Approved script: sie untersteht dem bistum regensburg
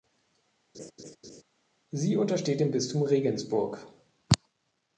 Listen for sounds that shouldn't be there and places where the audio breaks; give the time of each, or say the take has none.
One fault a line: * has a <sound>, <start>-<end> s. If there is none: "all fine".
* has a laugh, 0.7-1.4 s